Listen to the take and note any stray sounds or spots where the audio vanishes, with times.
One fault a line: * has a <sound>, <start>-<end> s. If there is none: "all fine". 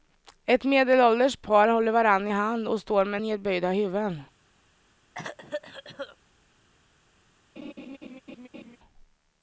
* has a cough, 5.1-6.2 s
* has a laugh, 7.6-8.8 s